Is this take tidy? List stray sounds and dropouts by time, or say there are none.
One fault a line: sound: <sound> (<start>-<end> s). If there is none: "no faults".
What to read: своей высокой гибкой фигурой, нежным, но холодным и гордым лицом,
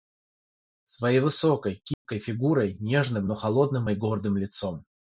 sound: dropout (1.9-2.1 s)